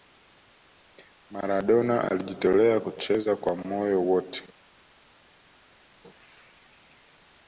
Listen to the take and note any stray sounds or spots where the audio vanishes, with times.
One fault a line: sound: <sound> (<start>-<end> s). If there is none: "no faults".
no faults